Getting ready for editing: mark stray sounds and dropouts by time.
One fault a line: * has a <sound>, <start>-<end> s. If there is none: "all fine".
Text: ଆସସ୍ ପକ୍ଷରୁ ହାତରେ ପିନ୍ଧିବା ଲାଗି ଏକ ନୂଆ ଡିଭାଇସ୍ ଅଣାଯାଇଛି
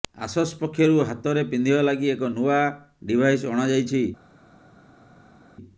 all fine